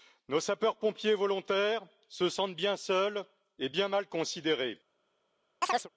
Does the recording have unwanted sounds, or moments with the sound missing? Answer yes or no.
yes